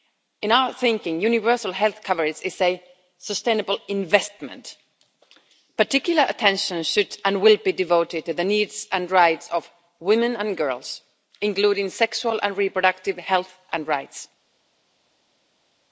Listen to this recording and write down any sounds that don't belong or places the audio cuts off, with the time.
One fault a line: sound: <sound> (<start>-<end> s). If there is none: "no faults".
no faults